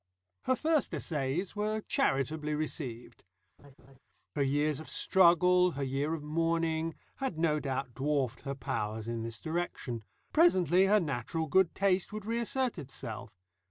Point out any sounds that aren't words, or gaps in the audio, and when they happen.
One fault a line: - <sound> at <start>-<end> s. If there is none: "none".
- laugh at 3.6-4.0 s